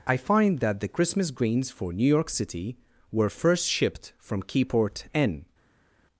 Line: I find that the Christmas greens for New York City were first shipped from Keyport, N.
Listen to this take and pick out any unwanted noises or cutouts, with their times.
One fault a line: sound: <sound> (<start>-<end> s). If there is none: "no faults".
no faults